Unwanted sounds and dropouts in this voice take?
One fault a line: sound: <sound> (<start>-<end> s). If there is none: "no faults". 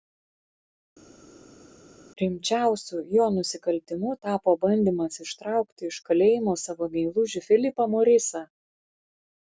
no faults